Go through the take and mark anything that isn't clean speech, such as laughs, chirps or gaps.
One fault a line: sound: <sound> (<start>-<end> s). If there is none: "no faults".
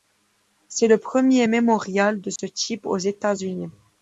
sound: dropout (2.4-2.4 s)